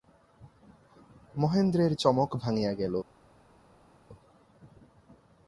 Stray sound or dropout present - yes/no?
no